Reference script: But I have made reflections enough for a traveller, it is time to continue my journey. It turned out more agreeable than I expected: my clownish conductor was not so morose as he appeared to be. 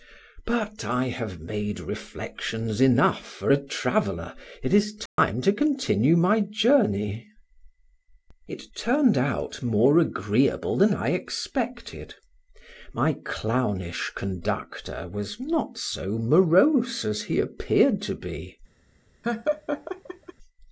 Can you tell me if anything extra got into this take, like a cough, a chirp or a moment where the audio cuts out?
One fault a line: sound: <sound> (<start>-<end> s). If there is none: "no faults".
sound: dropout (5.1-5.2 s)
sound: laugh (19.2-20.3 s)